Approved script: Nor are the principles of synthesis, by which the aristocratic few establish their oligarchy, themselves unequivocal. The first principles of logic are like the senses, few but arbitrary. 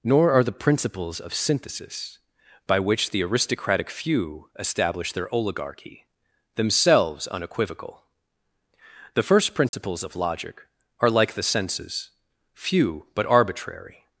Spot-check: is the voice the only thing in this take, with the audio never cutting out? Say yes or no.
no